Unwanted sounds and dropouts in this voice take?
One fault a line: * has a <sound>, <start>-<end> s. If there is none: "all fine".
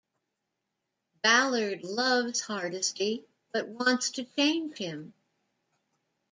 all fine